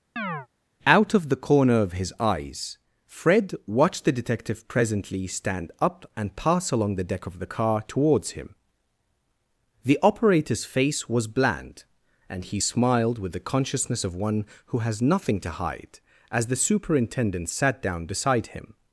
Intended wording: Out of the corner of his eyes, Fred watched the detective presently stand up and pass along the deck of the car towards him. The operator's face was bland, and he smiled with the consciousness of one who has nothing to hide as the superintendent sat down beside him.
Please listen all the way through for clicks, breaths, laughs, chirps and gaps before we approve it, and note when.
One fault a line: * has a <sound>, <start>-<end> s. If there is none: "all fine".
* has a chirp, 0.2-0.5 s